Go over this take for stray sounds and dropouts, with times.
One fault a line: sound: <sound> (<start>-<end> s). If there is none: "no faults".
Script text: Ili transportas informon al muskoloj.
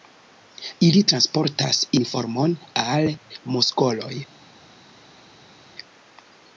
no faults